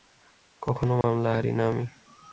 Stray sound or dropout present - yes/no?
yes